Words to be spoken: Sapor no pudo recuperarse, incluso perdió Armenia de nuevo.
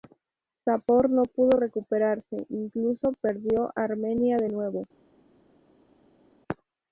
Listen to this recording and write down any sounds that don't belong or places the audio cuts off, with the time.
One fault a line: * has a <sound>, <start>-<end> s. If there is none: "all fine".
all fine